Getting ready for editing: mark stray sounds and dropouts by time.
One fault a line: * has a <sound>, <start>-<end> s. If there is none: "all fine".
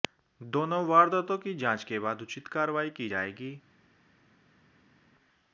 all fine